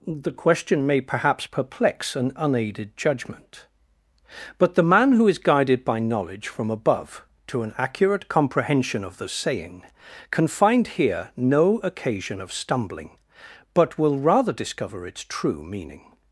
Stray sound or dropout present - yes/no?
no